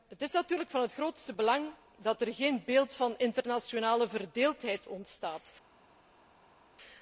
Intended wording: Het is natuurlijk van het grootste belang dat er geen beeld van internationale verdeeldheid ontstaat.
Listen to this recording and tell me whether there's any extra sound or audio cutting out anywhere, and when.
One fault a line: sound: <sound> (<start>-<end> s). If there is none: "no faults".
no faults